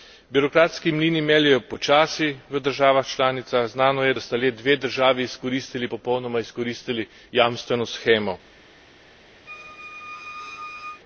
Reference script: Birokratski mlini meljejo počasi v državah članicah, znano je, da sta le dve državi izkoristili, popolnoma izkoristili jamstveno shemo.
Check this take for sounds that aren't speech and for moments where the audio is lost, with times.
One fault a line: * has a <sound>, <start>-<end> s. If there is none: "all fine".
* has a squeak, 9.5-11.0 s